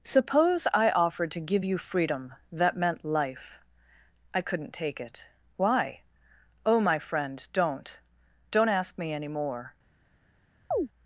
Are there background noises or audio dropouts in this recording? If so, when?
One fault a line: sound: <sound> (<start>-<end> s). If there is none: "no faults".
sound: chirp (10.7-10.9 s)